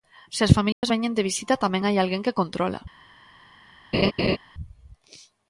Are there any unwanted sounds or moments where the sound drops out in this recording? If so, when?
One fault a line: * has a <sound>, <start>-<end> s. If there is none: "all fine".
* has a dropout, 0.7-0.8 s
* has a laugh, 3.9-4.4 s